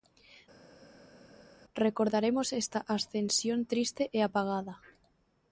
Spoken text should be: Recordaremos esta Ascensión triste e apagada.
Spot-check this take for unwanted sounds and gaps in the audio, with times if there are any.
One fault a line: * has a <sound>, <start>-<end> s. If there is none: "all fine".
all fine